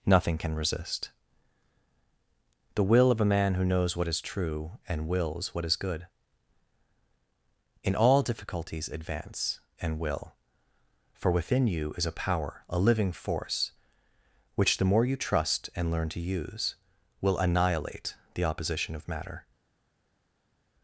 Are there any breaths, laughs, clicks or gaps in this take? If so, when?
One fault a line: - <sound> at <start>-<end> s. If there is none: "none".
none